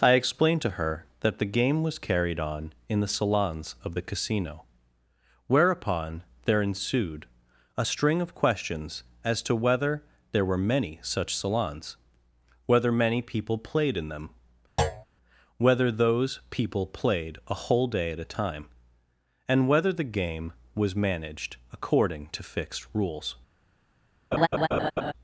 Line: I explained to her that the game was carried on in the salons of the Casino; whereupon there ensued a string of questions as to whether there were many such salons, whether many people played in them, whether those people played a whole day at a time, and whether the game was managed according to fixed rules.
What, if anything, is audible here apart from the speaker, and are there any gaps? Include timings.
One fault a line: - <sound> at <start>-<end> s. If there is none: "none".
- thud at 14.8-15.1 s
- laugh at 24.3-25.1 s